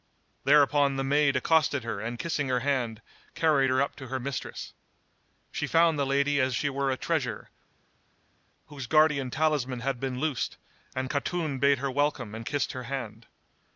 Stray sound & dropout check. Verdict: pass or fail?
pass